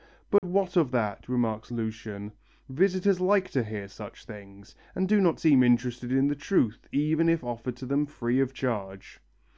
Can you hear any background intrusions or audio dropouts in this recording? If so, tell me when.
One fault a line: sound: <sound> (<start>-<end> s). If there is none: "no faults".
sound: dropout (0.4-0.4 s)